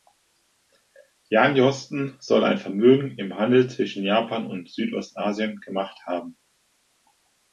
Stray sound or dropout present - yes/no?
no